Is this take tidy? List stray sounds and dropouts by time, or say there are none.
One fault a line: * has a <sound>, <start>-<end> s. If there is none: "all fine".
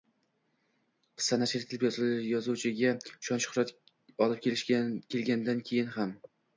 all fine